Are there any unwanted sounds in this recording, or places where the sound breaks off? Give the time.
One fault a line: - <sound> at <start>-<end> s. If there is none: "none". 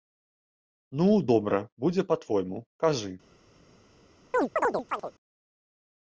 - chirp at 4.3-5.1 s